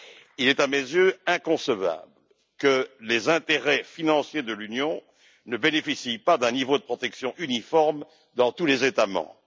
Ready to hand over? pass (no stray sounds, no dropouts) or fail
pass